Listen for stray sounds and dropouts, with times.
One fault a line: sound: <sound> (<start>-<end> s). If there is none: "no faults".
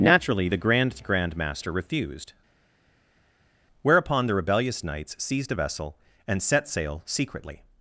no faults